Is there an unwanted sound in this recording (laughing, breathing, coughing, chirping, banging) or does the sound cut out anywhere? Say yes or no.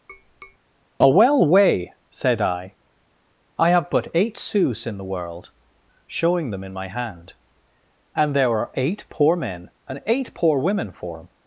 yes